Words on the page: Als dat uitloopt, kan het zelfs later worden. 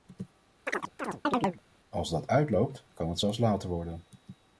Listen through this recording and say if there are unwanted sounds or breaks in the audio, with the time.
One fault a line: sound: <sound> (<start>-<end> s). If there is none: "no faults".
sound: chirp (0.7-1.6 s)